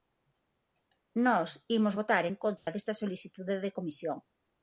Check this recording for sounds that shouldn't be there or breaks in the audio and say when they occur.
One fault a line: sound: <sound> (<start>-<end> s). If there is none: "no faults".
sound: dropout (2.6-2.7 s)